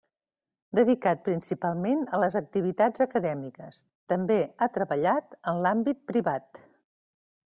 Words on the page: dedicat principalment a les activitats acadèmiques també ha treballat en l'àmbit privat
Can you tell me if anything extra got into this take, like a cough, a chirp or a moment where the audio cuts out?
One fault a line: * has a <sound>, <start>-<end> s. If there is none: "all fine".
all fine